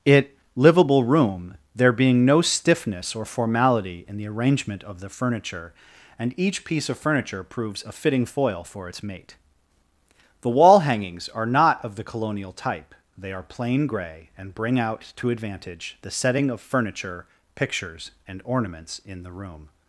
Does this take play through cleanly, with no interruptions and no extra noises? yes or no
yes